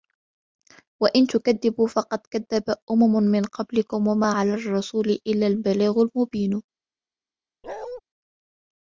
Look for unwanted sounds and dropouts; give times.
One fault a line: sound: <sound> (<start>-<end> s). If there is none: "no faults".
sound: bark (7.6-8.0 s)